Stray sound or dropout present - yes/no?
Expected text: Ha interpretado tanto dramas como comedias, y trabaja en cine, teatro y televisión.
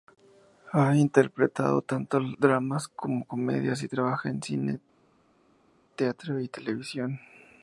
no